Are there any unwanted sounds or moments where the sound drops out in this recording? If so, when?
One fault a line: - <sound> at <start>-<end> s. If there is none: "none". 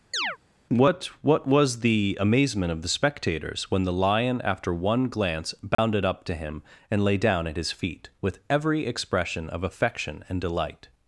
- chirp at 0.1-0.4 s
- dropout at 5.7-5.8 s